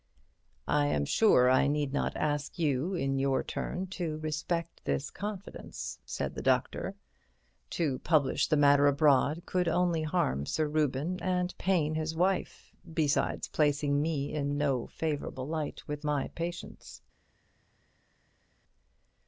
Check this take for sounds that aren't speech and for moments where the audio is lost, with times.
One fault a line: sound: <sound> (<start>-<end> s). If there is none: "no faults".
no faults